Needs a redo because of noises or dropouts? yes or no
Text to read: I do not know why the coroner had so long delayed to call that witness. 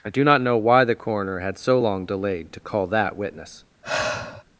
yes